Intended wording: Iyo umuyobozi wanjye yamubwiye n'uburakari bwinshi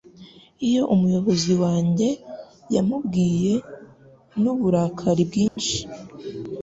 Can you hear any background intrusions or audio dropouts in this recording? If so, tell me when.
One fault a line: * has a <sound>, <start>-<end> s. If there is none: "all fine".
* has a dropout, 5.5-5.6 s